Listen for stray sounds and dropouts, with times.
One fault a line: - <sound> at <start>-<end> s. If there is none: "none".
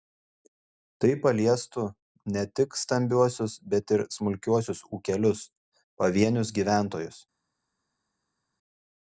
none